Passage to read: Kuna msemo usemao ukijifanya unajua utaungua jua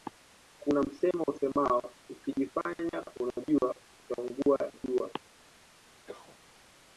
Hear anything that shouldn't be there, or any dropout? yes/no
yes